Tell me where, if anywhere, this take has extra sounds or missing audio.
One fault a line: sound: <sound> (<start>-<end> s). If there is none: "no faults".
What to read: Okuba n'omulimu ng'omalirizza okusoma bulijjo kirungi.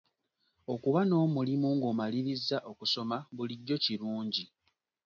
no faults